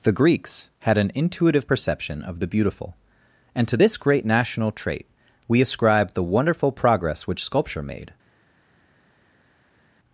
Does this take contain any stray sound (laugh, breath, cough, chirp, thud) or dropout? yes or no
no